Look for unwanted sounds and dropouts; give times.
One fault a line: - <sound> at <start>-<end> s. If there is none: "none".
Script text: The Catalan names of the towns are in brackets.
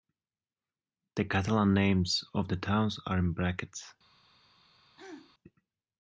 - throat clearing at 5.0-5.3 s